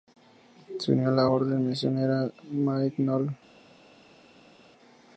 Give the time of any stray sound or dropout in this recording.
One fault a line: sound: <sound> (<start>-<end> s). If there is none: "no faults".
no faults